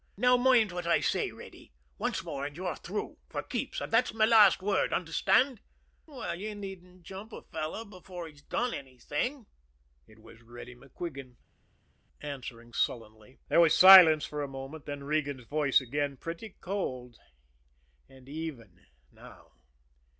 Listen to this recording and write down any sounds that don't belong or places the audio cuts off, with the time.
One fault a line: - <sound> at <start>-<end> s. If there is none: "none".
none